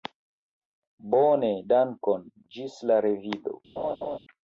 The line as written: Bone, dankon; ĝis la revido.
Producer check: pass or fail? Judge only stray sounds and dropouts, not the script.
fail